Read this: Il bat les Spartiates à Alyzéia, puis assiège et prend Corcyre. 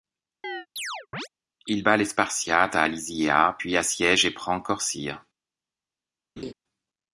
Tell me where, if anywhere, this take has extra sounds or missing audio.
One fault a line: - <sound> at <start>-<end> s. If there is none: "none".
- chirp at 0.4-1.3 s
- laugh at 6.4-6.5 s